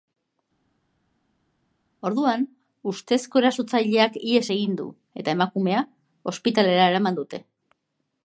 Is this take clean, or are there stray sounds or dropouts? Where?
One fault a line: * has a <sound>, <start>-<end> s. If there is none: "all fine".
all fine